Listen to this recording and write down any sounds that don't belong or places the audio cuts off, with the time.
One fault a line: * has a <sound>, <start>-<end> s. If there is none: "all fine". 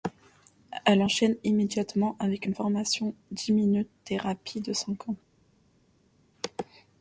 all fine